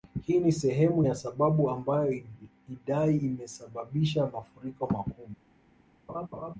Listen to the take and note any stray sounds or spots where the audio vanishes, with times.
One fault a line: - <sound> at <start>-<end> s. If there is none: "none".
- laugh at 6.1-6.5 s